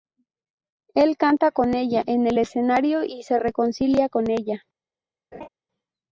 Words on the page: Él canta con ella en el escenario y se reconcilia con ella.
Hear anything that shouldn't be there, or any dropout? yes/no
yes